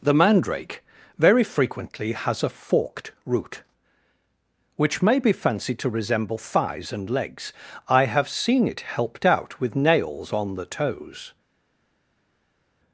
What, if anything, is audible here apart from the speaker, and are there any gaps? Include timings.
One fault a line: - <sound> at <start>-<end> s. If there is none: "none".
none